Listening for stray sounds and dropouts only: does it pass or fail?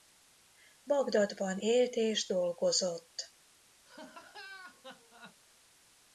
fail